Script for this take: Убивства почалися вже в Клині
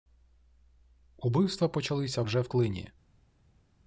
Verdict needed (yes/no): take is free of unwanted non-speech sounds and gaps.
yes